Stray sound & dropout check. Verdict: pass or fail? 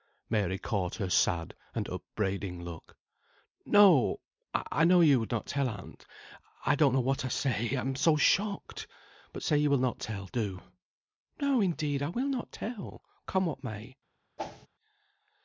fail